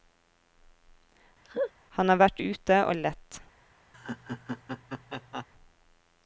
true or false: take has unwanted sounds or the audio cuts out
true